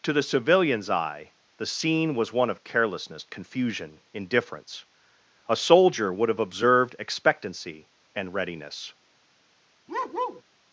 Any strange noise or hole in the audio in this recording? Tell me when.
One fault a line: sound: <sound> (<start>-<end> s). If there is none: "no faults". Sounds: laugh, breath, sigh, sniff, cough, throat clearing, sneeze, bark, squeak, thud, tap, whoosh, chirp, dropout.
sound: bark (9.9-10.4 s)